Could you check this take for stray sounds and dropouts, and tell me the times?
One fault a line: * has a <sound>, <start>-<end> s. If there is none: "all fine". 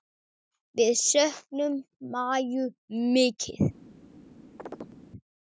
* has a chirp, 4.6-5.0 s